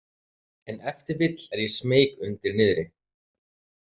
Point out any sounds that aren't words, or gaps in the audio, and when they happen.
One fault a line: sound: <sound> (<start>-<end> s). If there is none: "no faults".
no faults